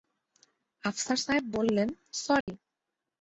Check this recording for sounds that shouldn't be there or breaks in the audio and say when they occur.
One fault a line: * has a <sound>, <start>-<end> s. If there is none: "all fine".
* has a dropout, 2.4-2.5 s